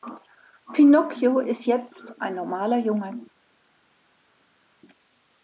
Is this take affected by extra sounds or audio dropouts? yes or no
no